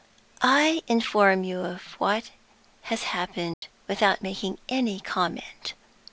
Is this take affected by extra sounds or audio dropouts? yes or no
yes